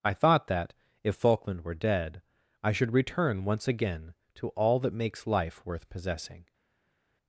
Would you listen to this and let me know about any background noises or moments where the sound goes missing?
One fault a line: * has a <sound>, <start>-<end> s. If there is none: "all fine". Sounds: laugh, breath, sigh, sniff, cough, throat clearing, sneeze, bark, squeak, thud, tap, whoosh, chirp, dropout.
all fine